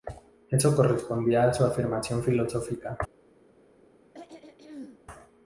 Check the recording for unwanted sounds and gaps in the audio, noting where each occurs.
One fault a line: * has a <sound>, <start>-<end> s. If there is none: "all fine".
* has a throat clearing, 4.1-5.0 s